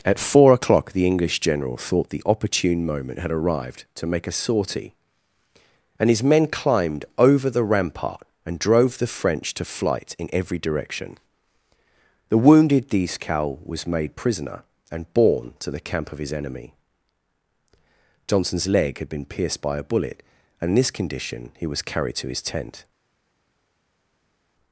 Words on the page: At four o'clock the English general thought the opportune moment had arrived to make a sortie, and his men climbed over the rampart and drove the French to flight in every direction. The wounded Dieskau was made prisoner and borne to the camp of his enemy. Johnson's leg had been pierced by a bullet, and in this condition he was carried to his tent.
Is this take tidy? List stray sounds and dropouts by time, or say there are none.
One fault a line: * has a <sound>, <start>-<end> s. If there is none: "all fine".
all fine